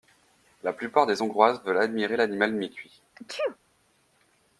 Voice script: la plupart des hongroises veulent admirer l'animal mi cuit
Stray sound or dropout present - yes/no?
yes